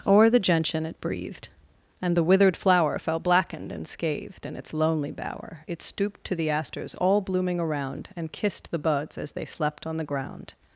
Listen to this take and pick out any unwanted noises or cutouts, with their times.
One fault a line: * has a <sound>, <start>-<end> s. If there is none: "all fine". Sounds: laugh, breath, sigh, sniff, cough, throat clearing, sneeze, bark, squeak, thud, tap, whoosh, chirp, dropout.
all fine